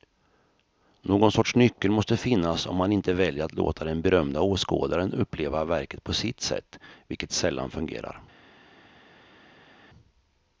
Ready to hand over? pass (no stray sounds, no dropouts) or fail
pass